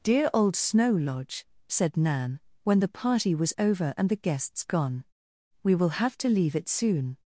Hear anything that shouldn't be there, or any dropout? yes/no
no